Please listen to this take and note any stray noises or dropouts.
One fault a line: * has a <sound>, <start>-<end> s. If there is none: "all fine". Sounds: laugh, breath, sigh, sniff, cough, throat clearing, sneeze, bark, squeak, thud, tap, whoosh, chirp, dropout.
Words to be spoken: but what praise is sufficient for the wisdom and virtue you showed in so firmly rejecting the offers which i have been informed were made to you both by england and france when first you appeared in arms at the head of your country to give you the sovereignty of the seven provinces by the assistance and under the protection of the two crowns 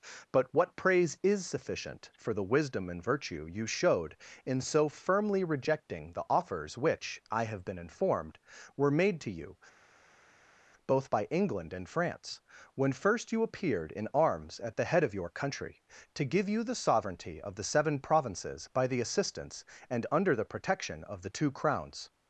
all fine